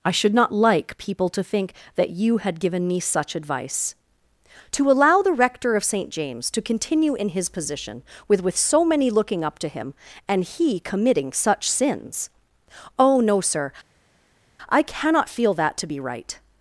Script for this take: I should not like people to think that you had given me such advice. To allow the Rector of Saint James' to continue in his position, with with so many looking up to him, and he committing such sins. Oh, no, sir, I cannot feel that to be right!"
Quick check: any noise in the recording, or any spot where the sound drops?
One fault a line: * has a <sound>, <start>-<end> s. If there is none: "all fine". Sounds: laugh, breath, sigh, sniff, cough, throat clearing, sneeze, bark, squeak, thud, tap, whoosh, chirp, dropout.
all fine